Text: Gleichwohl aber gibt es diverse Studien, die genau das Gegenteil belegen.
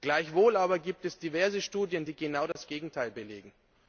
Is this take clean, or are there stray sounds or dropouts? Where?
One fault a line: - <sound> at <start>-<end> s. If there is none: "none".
- dropout at 2.5-2.6 s